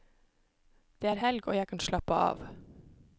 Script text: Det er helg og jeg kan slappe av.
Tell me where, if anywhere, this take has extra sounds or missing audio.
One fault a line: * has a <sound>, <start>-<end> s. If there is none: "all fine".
all fine